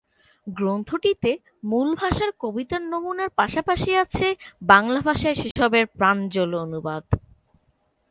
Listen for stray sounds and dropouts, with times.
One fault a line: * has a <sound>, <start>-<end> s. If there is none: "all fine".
* has a dropout, 5.5-5.6 s